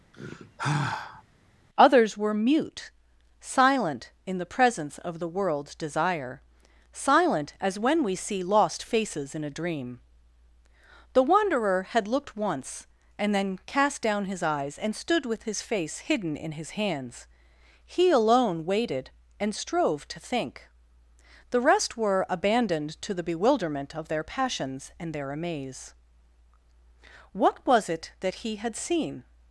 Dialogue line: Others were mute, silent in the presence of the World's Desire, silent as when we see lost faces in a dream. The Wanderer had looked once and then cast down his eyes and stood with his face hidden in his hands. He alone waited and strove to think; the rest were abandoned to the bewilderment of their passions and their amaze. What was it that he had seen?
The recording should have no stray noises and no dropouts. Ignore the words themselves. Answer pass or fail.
fail